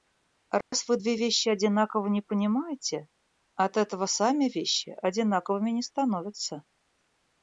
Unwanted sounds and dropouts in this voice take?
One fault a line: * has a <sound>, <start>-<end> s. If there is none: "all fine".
* has a dropout, 0.6-0.7 s